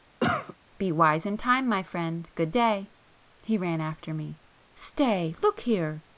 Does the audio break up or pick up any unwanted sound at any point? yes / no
yes